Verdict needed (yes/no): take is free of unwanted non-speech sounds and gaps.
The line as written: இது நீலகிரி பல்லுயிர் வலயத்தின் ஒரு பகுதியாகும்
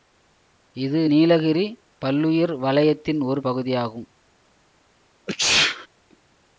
no